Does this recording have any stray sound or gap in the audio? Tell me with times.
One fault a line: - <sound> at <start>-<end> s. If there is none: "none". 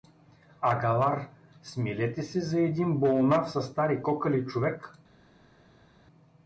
none